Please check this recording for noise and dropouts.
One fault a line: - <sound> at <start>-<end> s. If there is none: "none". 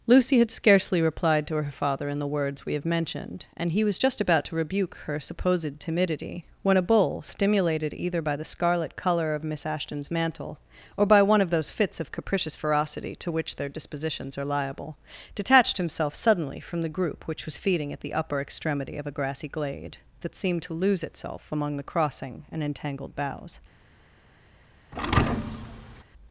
- thud at 24.9-26.0 s